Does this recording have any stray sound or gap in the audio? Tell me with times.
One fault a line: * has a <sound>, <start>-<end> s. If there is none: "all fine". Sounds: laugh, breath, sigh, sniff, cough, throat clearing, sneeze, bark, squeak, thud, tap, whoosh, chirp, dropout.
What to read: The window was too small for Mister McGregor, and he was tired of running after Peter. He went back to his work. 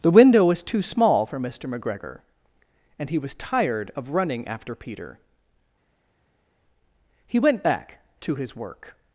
all fine